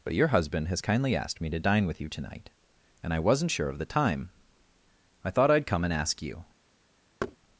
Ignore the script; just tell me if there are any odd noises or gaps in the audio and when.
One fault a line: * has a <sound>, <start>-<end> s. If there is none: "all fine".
* has a thud, 7.2-7.4 s